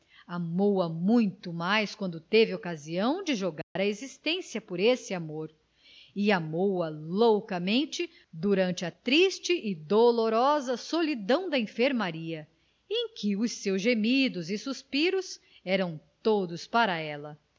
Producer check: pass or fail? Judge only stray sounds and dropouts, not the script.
fail